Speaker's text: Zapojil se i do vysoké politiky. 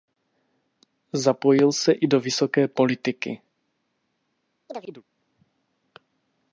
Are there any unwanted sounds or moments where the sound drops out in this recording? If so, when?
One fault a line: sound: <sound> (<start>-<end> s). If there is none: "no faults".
sound: chirp (4.7-5.0 s)